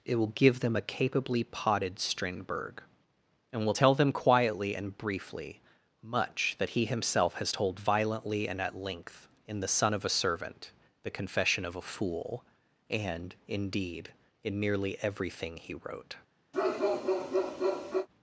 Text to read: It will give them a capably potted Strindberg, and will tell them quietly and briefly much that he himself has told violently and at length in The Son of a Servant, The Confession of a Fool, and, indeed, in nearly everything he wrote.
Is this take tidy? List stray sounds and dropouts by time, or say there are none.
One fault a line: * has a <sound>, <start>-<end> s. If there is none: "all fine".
* has a bark, 16.5-18.1 s